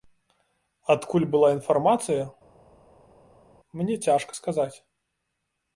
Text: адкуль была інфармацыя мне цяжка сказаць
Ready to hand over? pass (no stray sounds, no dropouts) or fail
pass